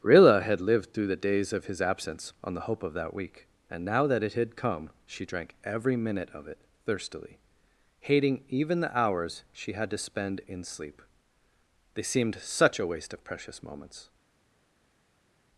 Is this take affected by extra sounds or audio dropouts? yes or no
no